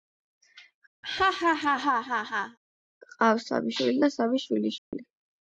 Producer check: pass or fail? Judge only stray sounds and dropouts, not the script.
fail